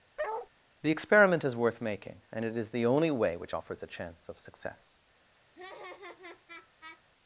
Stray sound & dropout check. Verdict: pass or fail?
fail